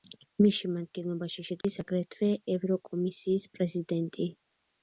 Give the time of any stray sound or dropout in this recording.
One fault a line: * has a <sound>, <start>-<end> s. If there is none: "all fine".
* has a dropout, 1.6-1.6 s